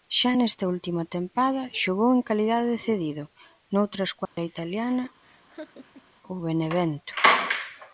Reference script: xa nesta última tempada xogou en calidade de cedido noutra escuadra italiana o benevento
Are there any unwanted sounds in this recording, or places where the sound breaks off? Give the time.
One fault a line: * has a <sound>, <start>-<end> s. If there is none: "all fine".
* has a dropout, 4.3-4.4 s
* has a laugh, 5.2-6.1 s